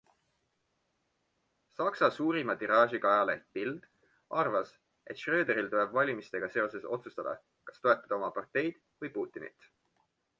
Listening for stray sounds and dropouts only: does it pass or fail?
pass